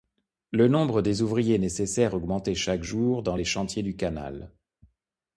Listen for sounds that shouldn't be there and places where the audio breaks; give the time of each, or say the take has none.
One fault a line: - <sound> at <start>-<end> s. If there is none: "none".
none